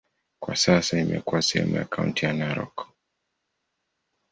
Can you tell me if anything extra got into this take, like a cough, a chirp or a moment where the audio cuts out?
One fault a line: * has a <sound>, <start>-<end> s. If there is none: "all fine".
all fine